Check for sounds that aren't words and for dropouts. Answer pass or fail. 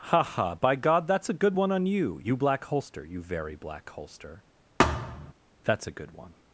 fail